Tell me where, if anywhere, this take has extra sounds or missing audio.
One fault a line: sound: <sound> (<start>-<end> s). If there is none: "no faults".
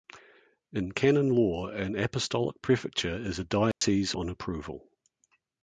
sound: dropout (3.7-3.8 s)